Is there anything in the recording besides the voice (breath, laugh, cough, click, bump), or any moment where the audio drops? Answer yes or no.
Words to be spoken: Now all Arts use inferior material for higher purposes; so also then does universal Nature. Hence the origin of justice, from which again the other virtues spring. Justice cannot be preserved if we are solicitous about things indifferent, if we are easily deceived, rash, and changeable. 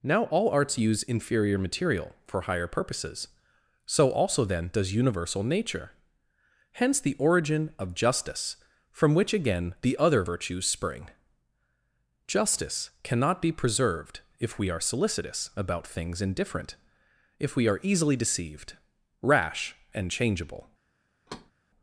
yes